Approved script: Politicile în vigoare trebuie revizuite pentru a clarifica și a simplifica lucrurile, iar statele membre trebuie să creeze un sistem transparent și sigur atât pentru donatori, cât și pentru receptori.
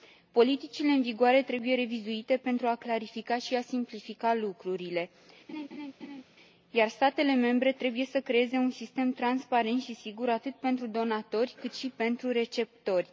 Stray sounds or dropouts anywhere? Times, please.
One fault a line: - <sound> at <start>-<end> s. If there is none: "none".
- laugh at 5.5-6.2 s